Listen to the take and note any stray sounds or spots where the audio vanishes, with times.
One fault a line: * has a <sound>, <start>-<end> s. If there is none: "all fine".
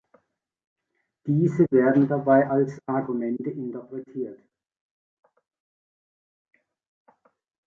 all fine